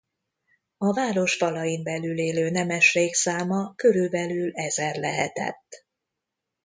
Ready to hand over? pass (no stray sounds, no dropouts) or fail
pass